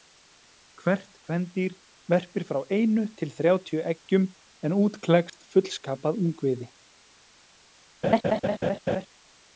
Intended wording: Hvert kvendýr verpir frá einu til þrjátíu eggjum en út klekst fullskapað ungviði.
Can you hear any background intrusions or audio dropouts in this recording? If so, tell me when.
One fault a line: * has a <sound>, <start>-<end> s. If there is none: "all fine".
* has a dropout, 5.3-5.3 s
* has a laugh, 8.0-9.1 s